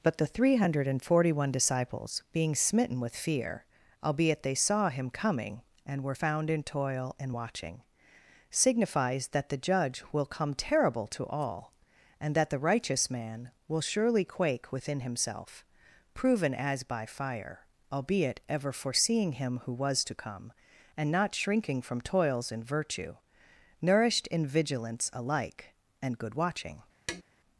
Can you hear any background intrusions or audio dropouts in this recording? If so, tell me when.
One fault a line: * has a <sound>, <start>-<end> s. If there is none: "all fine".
* has a tap, 27.1-27.2 s